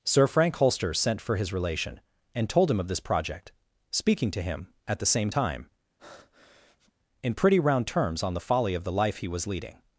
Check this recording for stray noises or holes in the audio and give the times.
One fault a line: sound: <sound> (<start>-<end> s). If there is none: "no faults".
sound: breath (6.0-6.9 s)